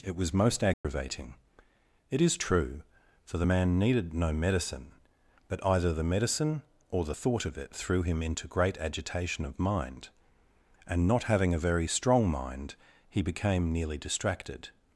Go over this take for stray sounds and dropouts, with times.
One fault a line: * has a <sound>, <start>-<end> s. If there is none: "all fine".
* has a dropout, 0.7-0.8 s